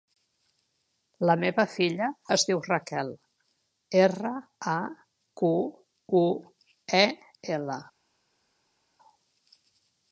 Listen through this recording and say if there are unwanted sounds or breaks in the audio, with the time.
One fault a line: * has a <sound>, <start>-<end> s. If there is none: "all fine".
all fine